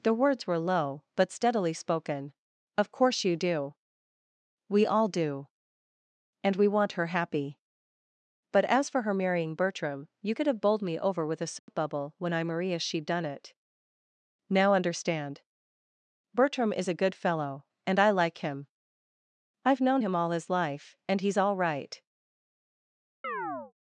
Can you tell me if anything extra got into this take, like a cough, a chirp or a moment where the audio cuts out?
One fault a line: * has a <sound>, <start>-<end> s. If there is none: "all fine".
* has a dropout, 11.6-11.7 s
* has a chirp, 23.2-23.7 s